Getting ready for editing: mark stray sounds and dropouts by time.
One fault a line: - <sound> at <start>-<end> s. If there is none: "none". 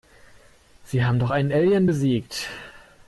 none